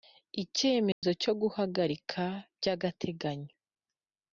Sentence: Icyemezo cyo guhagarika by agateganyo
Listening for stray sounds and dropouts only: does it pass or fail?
fail